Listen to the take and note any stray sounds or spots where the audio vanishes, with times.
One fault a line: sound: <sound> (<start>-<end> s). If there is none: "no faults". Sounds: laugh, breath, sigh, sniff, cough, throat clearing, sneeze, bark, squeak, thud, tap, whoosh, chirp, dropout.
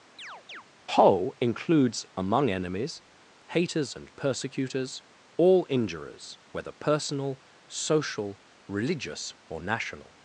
sound: chirp (0.2-0.6 s)